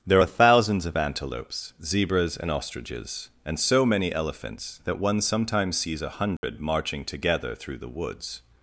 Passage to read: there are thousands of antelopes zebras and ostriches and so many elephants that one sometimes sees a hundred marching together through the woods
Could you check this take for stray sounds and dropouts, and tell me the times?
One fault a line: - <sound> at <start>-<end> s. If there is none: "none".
- dropout at 6.4-6.4 s